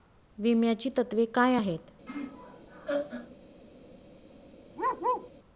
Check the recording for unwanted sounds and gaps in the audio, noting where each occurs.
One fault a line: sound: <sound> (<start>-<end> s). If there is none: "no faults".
sound: laugh (2.1-3.4 s)
sound: bark (4.8-5.3 s)